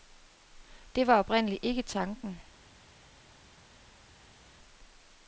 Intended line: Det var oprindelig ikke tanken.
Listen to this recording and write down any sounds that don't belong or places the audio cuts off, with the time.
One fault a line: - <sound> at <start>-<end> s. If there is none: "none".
none